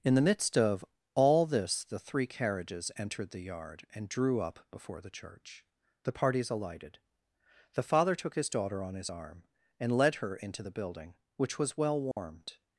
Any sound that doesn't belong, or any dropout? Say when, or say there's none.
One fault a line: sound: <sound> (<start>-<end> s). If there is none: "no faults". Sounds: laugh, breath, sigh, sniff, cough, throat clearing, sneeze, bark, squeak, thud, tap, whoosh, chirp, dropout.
sound: dropout (12.1-12.2 s)